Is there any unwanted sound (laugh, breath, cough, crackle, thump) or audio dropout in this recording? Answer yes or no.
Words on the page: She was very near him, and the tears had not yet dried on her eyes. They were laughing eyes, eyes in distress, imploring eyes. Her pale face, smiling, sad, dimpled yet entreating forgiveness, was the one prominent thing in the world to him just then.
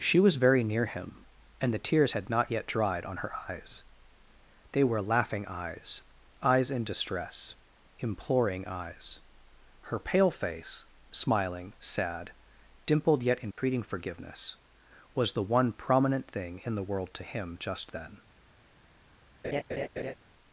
yes